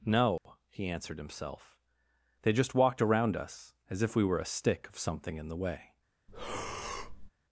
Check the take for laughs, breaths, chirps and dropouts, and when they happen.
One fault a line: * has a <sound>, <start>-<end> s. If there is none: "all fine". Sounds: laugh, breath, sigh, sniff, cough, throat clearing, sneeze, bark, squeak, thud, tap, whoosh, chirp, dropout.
* has a dropout, 0.4-0.5 s
* has a breath, 6.3-7.3 s